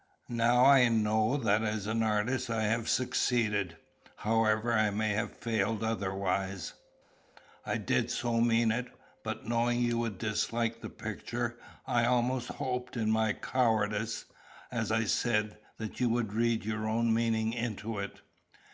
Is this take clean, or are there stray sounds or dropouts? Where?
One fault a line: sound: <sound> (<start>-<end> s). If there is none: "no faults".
no faults